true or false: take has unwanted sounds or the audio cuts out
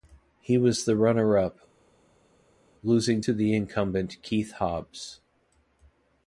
false